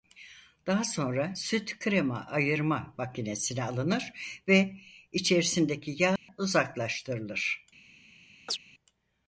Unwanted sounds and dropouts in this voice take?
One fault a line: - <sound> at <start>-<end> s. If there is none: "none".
- dropout at 6.2-6.3 s
- chirp at 8.5-8.6 s